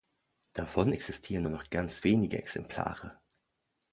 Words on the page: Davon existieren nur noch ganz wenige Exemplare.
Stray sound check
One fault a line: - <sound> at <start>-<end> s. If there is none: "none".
none